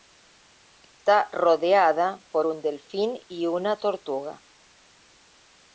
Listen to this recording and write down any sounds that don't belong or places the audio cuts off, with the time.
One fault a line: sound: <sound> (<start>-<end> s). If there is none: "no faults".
sound: dropout (0.8-1.0 s)